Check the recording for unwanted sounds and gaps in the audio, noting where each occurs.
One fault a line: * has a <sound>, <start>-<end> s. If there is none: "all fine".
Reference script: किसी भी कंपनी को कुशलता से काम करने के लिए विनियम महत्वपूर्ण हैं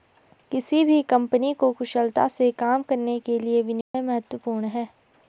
* has a dropout, 3.8-3.9 s